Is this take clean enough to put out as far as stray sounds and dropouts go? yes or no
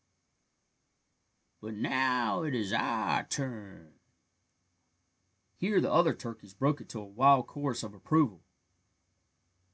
yes